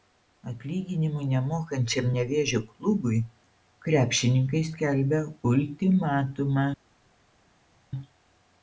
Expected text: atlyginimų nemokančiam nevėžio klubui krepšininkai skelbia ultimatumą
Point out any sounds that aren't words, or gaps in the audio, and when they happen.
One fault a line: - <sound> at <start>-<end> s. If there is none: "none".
none